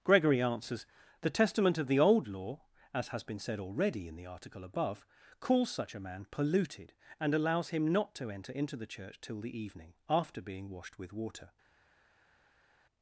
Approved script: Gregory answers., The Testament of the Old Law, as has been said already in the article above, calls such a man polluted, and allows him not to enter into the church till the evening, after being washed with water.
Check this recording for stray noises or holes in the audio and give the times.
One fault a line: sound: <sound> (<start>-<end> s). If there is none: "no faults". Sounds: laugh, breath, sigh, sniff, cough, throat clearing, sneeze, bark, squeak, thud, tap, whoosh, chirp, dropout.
no faults